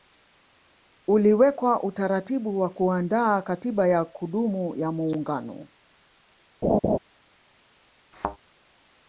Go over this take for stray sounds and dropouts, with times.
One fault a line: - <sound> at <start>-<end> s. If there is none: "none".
- laugh at 6.6-7.0 s
- thud at 8.1-8.4 s